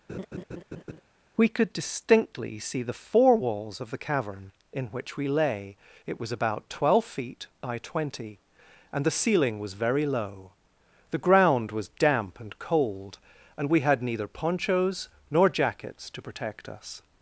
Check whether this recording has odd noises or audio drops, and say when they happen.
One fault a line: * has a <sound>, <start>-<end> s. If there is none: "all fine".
* has a laugh, 0.1-1.0 s